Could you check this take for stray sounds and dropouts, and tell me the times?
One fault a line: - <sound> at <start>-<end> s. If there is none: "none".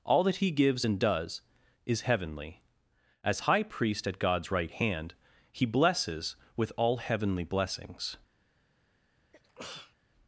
- sneeze at 9.3-10.0 s